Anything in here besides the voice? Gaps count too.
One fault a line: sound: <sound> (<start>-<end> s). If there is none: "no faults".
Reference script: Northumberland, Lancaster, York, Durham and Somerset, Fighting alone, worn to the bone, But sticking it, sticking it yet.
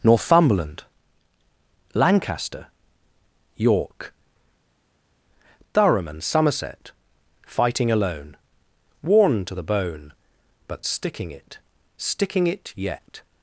no faults